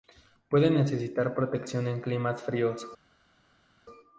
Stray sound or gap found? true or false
false